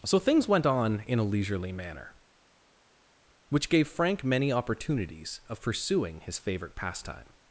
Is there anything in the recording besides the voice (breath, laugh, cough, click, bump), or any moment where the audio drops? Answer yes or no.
no